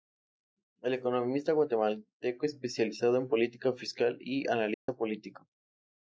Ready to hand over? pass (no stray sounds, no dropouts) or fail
fail